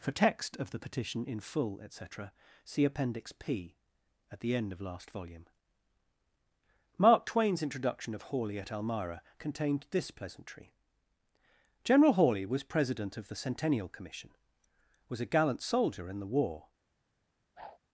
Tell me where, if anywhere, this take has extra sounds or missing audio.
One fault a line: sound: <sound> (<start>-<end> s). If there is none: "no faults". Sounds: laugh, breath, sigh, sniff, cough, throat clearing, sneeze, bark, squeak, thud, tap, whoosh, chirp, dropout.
sound: whoosh (17.6-17.8 s)